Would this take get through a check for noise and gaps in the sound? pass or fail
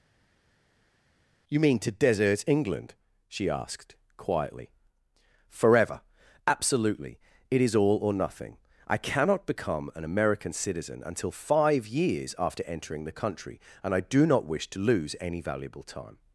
pass